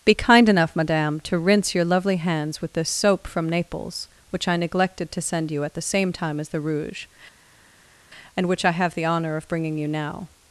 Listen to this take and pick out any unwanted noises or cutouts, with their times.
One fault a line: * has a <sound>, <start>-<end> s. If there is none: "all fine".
all fine